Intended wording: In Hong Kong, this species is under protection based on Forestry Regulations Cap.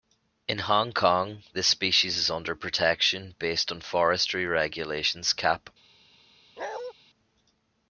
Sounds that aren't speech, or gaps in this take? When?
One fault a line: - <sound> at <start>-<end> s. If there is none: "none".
- bark at 6.6-6.9 s